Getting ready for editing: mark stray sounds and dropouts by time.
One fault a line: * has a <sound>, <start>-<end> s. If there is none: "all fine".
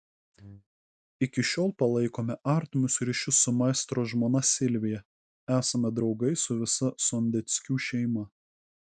all fine